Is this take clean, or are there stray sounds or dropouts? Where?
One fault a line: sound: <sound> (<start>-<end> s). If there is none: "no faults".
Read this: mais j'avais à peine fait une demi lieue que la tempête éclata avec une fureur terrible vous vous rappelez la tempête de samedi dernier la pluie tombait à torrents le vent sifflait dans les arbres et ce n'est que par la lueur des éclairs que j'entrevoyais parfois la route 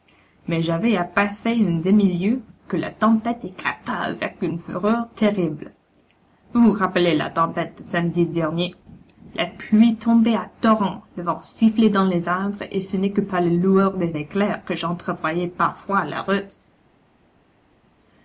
no faults